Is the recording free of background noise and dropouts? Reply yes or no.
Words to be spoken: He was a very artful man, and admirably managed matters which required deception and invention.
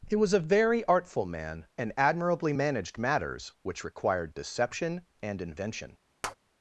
no